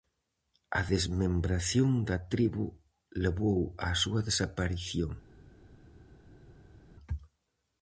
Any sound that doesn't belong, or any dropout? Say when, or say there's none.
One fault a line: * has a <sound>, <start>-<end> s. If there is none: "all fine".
all fine